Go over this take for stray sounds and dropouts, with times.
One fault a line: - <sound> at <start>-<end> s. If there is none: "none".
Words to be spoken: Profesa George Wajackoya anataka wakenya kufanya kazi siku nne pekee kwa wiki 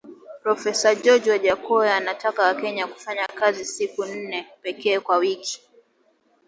none